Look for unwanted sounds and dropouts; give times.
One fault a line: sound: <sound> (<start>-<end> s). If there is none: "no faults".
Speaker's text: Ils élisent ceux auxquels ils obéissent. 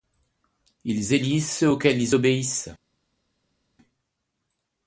no faults